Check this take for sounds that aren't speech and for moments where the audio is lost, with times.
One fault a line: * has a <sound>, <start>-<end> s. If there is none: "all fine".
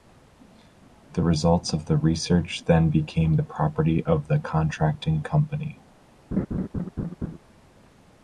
* has a laugh, 6.3-7.4 s